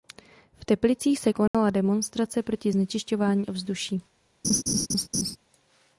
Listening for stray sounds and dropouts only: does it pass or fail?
fail